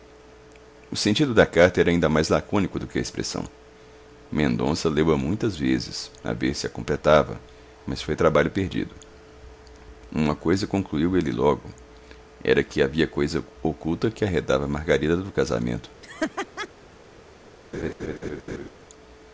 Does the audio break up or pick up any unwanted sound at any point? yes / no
yes